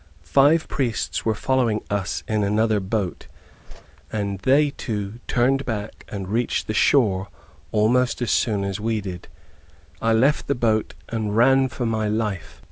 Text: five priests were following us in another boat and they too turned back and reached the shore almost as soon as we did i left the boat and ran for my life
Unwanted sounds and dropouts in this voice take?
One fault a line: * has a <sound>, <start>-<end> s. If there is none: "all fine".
* has a whoosh, 3.7-3.8 s